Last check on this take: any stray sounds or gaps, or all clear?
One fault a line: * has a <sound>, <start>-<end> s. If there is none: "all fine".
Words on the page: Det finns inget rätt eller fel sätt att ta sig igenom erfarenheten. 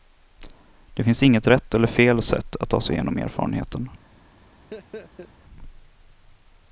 * has a laugh, 4.7-5.3 s